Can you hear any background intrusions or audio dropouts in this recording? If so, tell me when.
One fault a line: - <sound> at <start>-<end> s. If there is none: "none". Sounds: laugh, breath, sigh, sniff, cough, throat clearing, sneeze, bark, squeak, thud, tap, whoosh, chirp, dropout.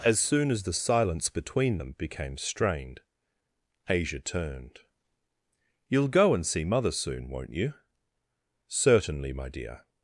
none